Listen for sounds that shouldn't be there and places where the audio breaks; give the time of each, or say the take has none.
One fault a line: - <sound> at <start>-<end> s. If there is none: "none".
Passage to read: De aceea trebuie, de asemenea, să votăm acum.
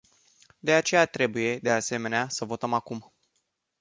none